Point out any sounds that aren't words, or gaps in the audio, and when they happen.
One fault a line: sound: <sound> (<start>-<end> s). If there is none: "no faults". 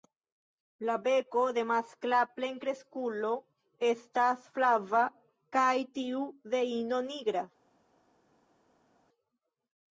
no faults